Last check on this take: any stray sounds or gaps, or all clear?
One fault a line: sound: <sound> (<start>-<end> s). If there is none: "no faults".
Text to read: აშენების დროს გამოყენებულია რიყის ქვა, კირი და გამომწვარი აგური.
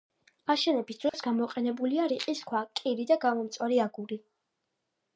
sound: dropout (1.1-1.1 s)